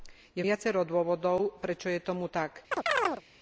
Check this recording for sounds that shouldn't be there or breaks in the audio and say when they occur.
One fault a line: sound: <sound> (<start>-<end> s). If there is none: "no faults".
sound: chirp (2.7-3.2 s)